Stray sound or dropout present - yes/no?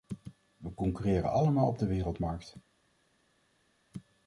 no